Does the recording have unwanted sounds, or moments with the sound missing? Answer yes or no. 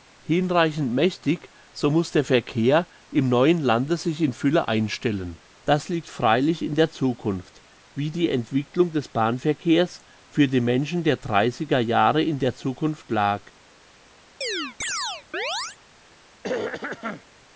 yes